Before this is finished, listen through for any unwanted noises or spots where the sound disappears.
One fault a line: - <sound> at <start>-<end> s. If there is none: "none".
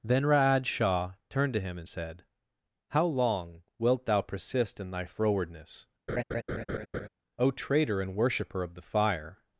- laugh at 6.1-7.1 s